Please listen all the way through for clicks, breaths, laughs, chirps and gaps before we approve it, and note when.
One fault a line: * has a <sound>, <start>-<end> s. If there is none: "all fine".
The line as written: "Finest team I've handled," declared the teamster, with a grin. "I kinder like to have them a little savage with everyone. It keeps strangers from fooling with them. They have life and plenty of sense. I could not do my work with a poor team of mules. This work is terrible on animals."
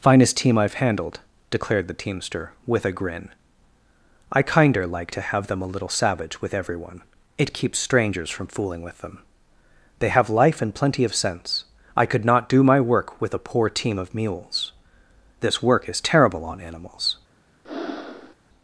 * has a breath, 17.6-18.3 s